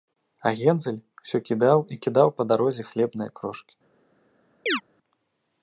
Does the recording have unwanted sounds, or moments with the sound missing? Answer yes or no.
yes